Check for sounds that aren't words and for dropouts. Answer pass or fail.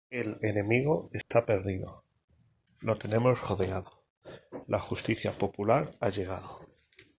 fail